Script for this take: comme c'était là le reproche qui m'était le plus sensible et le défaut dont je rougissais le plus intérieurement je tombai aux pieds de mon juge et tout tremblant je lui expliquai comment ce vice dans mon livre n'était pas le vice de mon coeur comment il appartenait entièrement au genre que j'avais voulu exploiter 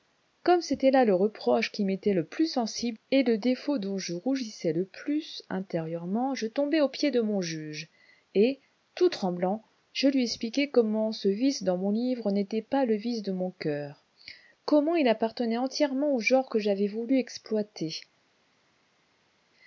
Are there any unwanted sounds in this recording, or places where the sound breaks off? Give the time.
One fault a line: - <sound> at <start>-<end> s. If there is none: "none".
none